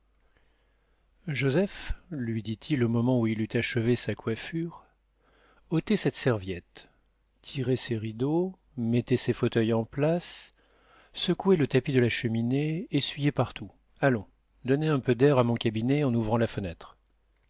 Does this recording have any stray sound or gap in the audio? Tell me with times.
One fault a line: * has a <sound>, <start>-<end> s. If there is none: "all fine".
all fine